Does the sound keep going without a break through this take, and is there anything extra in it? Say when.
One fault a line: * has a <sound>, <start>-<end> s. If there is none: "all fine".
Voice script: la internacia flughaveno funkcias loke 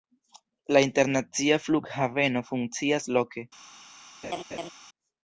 * has a laugh, 4.2-4.7 s